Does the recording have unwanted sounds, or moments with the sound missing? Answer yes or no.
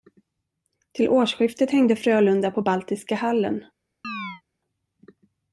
yes